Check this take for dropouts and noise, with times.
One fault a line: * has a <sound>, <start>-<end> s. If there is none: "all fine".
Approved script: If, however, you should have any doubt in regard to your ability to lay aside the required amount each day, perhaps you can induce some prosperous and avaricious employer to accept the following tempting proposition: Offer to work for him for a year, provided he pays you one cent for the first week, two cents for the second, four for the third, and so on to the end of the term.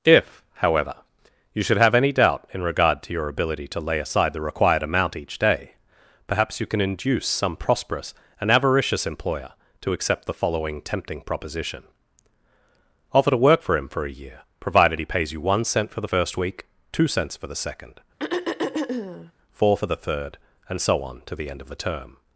* has a throat clearing, 18.2-19.3 s